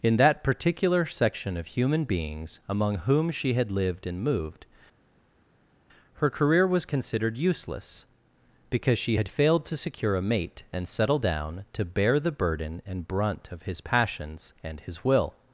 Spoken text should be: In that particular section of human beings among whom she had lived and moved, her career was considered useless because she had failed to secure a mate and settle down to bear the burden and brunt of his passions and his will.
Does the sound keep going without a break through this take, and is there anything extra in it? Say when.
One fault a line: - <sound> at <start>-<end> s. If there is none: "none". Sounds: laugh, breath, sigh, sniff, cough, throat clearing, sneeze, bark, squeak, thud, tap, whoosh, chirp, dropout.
none